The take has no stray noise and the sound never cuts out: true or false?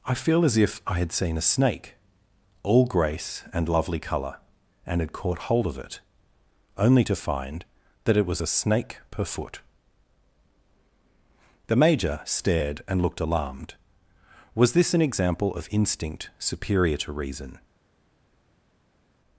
true